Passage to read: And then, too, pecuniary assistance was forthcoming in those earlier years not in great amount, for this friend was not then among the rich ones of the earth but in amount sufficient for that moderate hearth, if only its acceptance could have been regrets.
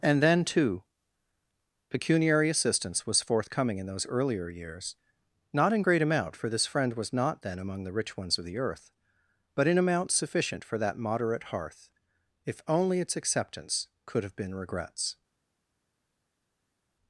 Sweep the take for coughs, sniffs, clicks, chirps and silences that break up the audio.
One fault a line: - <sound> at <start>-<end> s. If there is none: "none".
none